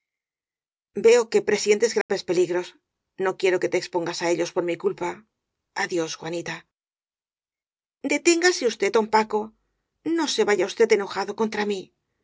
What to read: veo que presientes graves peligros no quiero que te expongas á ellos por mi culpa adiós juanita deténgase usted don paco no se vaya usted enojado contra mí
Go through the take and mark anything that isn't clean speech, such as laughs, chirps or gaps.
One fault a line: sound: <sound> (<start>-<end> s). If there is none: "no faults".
sound: dropout (2.0-2.1 s)